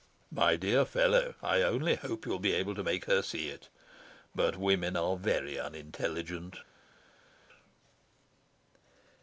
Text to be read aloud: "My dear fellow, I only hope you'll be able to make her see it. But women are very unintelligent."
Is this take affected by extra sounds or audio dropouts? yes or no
no